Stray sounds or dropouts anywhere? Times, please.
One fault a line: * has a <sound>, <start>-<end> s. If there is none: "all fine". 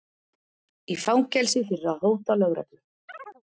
* has a chirp, 3.1-3.4 s